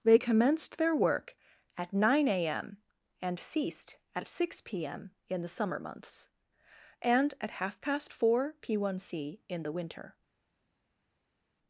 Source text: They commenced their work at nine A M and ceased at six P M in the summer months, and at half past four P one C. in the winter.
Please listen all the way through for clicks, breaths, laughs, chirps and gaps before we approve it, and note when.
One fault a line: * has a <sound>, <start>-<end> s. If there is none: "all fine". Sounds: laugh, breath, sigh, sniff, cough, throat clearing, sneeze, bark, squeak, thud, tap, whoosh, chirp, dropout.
all fine